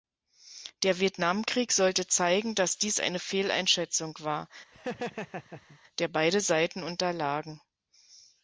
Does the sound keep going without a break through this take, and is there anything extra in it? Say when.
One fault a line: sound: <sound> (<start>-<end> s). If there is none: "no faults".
sound: laugh (4.7-5.8 s)